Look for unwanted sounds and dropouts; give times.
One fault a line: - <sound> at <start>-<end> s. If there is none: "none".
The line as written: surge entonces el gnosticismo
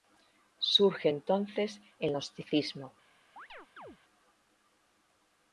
- chirp at 3.4-4.0 s